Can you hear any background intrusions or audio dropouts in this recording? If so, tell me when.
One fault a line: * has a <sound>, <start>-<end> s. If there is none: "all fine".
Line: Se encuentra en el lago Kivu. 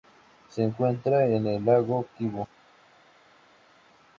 all fine